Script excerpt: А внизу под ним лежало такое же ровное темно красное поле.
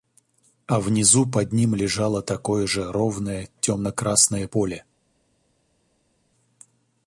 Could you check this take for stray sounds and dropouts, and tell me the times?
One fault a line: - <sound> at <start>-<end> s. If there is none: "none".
none